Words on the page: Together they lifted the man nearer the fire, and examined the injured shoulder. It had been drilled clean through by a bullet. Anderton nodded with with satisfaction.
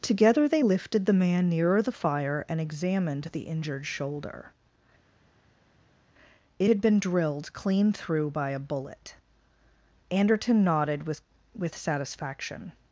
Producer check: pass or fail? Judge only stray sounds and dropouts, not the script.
pass